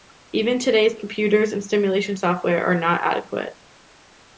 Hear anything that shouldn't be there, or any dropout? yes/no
no